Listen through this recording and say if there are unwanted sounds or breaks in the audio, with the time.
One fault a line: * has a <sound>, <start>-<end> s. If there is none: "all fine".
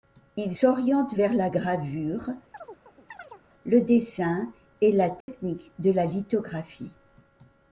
* has a chirp, 2.5-3.4 s
* has a dropout, 5.2-5.3 s